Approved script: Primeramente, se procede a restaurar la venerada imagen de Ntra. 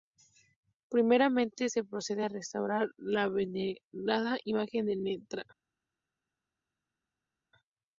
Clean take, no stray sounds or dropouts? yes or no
yes